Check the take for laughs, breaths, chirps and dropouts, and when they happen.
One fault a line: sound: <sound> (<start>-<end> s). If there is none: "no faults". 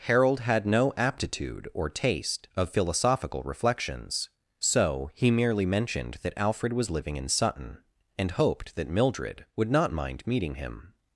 no faults